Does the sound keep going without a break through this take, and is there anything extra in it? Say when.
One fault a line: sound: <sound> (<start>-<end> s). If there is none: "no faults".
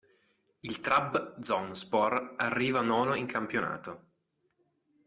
no faults